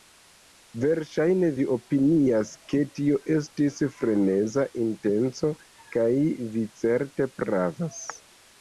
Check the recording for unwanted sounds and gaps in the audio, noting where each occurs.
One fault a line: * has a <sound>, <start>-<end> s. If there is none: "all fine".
all fine